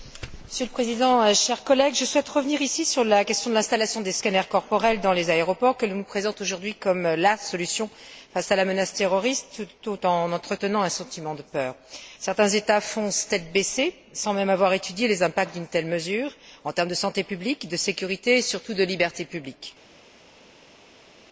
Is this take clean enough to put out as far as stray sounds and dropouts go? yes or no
yes